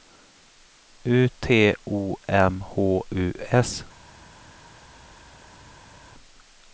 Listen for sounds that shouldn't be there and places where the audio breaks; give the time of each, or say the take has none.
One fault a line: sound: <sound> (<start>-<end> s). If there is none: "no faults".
no faults